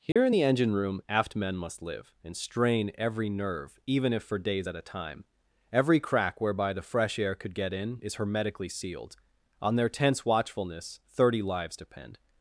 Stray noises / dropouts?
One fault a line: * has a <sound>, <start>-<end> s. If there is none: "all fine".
* has a dropout, 0.1-0.2 s